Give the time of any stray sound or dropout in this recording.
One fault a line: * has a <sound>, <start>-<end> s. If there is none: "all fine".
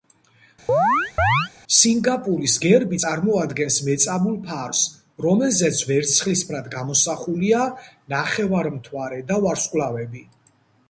* has a chirp, 0.7-1.5 s